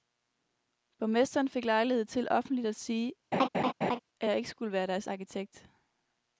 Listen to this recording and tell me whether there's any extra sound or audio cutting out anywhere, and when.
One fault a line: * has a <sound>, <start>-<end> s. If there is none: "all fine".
* has a laugh, 3.3-4.0 s